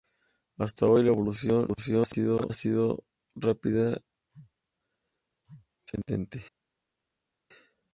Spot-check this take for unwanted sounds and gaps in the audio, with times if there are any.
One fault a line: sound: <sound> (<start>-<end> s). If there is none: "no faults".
no faults